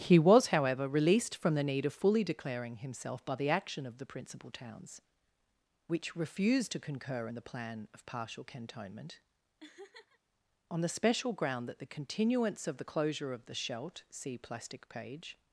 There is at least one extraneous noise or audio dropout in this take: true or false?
true